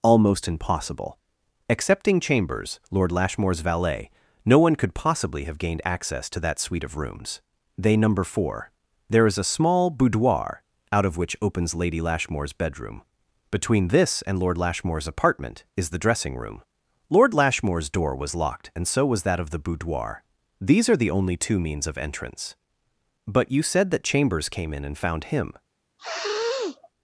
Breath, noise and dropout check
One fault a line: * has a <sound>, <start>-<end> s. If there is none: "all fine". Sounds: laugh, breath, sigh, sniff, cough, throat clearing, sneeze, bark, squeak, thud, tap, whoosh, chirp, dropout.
* has a sniff, 26.0-26.9 s